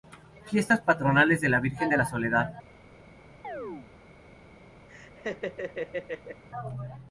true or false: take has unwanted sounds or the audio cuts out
true